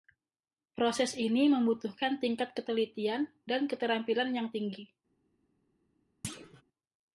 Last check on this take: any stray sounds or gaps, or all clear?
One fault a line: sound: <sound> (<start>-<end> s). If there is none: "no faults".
sound: thud (6.2-6.6 s)